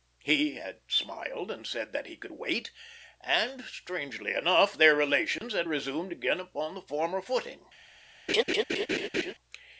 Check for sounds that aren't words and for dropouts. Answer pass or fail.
fail